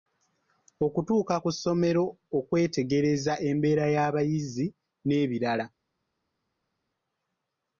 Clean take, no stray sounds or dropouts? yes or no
yes